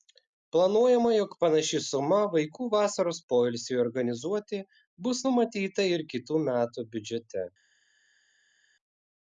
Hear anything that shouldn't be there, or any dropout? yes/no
no